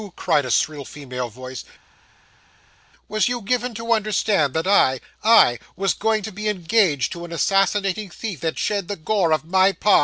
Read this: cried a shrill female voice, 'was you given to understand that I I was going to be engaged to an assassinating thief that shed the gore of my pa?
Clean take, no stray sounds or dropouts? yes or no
yes